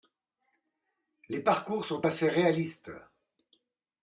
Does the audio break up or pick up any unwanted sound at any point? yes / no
no